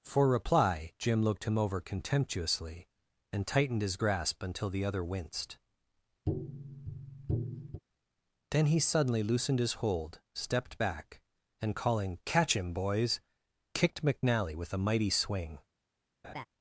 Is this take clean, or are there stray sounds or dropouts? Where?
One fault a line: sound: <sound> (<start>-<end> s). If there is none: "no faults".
sound: tap (6.3-7.8 s)
sound: laugh (16.2-16.5 s)